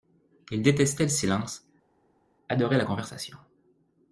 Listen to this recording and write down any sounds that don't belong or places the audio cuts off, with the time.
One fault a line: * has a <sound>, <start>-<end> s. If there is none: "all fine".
all fine